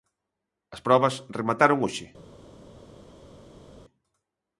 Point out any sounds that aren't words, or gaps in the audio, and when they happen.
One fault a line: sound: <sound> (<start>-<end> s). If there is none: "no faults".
no faults